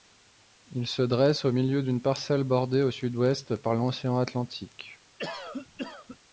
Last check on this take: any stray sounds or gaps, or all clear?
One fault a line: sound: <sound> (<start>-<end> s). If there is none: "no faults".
sound: cough (5.2-6.2 s)